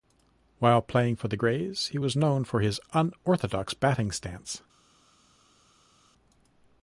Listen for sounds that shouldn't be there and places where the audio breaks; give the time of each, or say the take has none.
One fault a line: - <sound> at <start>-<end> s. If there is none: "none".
none